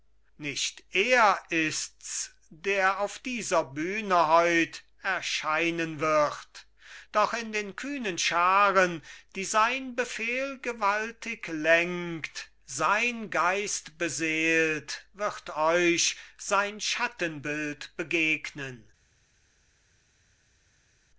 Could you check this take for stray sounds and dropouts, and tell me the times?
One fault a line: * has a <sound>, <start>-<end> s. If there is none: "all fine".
all fine